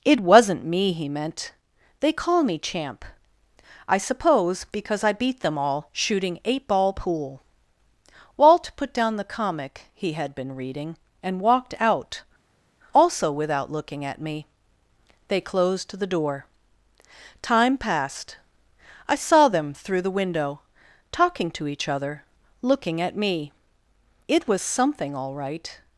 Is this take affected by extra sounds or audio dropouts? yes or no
no